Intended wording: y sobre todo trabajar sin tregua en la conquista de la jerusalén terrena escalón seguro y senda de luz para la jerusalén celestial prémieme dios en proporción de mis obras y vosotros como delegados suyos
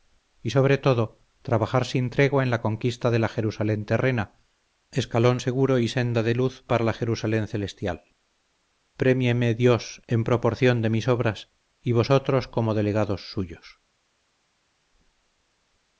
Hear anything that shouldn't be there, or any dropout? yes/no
no